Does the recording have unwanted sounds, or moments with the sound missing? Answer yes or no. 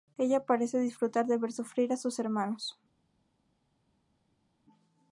no